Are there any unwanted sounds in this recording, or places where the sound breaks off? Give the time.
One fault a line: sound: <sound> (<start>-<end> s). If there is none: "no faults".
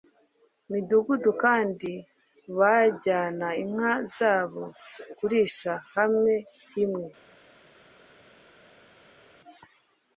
no faults